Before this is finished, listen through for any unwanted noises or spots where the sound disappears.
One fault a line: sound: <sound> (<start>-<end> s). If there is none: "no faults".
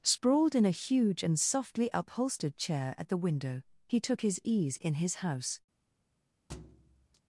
sound: thud (6.5-7.2 s)